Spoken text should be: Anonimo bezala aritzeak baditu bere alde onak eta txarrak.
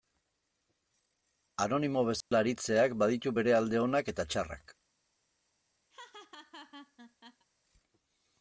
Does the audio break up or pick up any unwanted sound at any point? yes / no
yes